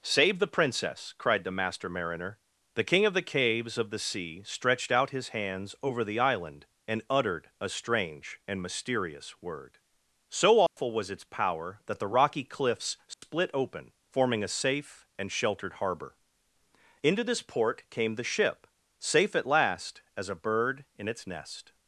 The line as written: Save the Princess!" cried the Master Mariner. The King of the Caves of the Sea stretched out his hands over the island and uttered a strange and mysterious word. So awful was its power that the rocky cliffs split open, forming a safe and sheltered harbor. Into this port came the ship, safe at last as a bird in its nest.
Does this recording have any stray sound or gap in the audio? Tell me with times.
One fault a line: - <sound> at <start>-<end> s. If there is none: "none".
- dropout at 10.7-10.8 s
- dropout at 13.1-13.2 s